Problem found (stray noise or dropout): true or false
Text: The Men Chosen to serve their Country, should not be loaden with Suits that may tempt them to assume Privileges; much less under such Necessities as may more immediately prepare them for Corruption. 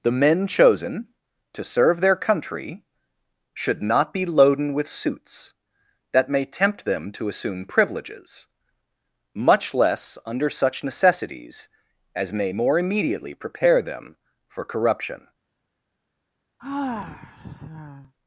true